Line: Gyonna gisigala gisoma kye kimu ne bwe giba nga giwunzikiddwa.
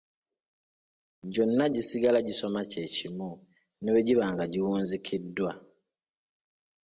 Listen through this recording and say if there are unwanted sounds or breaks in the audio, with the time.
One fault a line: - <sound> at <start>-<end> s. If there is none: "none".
none